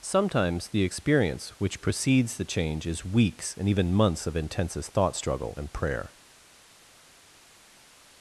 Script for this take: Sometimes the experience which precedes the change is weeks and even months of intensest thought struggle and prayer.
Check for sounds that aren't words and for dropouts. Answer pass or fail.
pass